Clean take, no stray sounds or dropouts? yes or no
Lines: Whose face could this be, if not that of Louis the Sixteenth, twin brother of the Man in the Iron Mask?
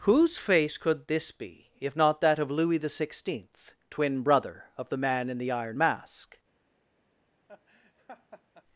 no